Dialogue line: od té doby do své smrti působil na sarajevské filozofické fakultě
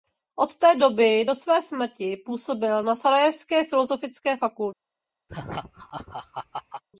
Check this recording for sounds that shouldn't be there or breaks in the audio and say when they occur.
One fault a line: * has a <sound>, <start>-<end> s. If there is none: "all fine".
* has a laugh, 5.3-6.8 s